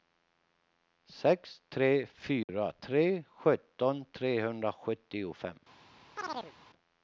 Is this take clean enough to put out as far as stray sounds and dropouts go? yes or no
no